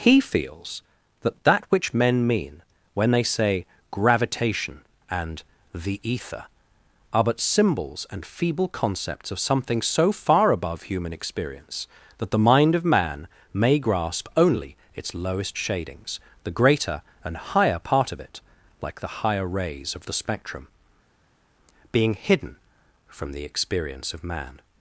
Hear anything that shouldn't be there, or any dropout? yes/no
no